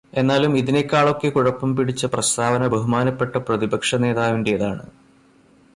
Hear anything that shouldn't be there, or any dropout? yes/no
no